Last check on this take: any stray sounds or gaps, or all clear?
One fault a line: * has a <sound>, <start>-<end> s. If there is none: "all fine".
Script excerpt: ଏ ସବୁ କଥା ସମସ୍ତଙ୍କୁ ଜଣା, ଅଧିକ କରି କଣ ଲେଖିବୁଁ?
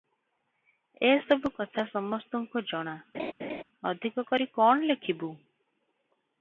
* has a laugh, 3.1-3.6 s